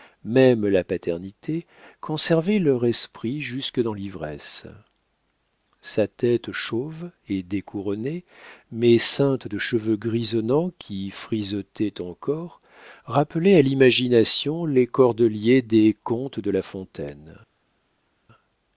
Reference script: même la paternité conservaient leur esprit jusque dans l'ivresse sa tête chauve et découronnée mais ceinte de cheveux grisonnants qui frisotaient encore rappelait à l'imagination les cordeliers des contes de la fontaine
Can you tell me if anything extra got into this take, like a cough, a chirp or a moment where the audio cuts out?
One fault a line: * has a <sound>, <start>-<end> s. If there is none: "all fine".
all fine